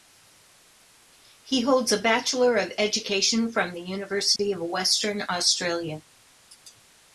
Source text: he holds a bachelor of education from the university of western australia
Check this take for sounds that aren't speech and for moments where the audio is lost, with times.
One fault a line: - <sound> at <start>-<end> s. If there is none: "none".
- dropout at 4.4-4.4 s